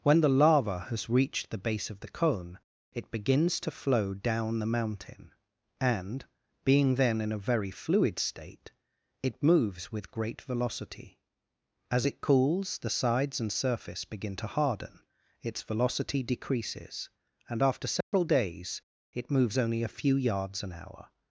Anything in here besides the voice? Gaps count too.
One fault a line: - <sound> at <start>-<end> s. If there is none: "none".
- dropout at 18.0-18.1 s